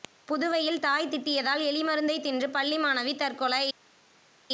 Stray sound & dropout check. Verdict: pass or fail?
pass